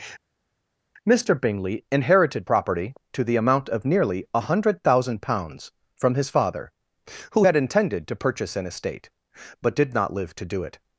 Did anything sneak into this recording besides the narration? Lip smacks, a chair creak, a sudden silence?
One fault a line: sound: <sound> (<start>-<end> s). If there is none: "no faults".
no faults